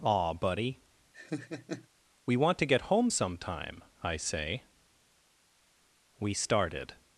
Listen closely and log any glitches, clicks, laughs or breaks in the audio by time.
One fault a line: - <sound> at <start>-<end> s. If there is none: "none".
- laugh at 1.1-1.9 s